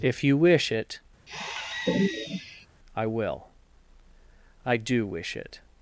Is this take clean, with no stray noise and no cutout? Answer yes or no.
no